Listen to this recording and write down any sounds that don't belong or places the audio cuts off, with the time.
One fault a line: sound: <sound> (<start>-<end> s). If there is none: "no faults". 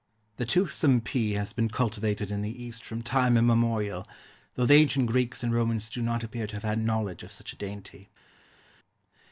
no faults